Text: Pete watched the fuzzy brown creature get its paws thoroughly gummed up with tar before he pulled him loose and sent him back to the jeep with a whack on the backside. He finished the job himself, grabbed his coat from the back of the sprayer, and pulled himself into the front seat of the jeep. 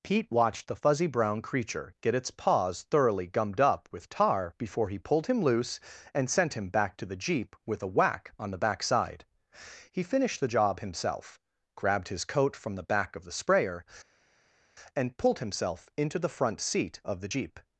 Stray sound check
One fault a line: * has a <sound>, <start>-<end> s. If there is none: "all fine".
all fine